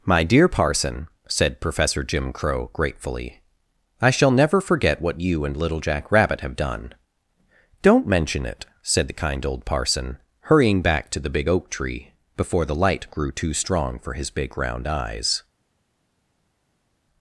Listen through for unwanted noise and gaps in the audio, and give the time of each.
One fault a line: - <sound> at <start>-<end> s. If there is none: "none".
none